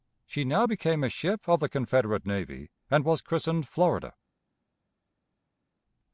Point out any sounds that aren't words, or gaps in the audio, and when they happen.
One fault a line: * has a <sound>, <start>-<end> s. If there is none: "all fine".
all fine